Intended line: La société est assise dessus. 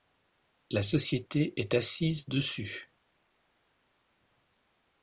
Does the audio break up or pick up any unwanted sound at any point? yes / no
no